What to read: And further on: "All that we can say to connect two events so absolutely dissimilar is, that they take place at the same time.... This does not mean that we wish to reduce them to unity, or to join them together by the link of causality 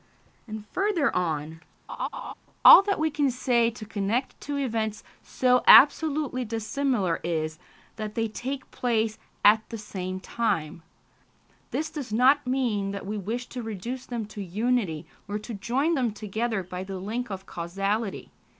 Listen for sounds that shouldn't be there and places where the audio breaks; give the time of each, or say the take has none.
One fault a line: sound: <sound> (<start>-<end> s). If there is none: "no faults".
sound: laugh (1.9-2.3 s)